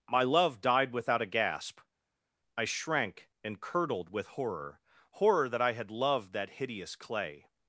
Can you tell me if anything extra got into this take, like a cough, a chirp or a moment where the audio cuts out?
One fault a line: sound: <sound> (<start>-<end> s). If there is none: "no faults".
no faults